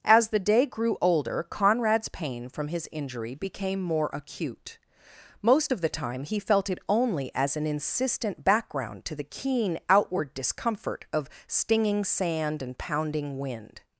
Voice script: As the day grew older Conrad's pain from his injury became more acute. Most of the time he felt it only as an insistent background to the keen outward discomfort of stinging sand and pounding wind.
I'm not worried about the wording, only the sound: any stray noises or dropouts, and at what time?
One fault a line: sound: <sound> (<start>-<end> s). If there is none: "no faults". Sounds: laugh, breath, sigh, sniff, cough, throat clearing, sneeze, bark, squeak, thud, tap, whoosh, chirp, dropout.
no faults